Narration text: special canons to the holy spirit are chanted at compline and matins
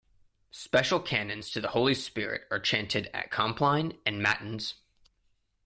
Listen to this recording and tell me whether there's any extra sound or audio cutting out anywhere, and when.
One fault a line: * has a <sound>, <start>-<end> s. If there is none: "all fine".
all fine